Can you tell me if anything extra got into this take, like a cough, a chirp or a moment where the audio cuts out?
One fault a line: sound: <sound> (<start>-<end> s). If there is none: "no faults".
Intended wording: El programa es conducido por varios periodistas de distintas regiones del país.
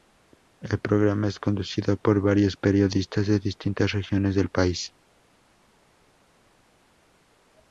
no faults